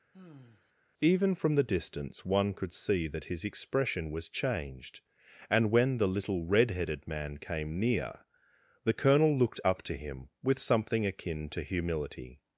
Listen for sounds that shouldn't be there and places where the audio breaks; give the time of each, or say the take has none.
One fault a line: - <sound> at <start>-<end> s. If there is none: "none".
- sigh at 0.1-0.7 s